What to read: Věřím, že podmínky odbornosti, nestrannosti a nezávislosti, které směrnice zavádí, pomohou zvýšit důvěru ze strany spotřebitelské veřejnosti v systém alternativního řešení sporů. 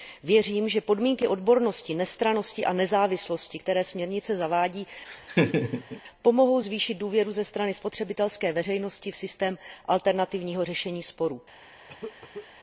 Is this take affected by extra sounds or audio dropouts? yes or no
yes